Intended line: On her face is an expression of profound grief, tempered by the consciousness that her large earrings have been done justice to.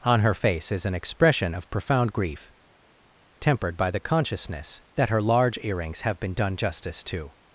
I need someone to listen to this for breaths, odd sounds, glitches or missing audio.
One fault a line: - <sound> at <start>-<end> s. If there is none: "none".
none